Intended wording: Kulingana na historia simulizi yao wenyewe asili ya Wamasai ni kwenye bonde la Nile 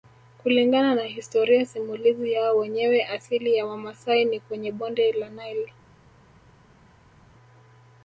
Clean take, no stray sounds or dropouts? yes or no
yes